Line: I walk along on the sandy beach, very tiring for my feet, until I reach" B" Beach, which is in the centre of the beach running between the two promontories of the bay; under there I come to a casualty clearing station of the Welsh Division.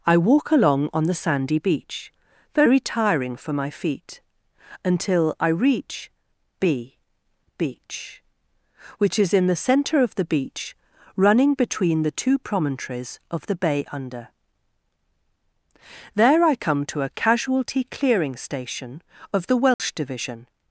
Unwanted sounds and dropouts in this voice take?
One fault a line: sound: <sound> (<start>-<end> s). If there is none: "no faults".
sound: dropout (19.7-19.8 s)